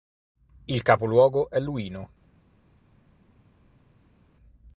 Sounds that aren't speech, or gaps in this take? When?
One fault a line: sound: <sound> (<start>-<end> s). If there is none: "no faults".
no faults